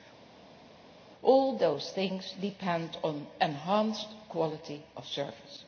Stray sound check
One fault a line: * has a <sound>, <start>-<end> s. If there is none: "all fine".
all fine